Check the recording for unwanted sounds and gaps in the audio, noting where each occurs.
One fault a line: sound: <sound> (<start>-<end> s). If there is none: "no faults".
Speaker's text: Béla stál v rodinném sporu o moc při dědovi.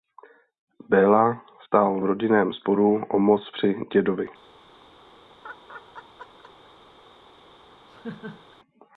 sound: laugh (5.4-6.7 s)
sound: laugh (7.9-8.6 s)